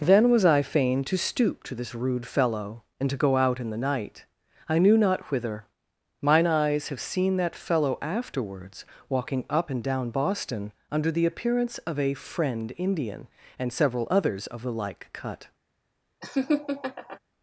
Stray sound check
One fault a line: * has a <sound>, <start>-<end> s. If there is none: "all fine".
* has a laugh, 16.2-17.2 s